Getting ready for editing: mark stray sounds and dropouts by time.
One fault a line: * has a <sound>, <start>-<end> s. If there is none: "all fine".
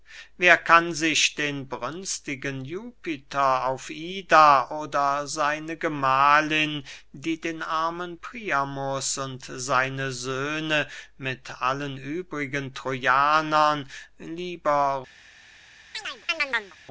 * has a chirp, 15.9-16.8 s